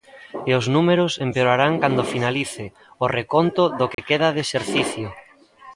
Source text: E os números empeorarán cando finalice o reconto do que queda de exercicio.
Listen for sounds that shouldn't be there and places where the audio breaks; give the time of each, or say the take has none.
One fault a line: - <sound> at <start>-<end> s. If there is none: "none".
- dropout at 3.9-4.0 s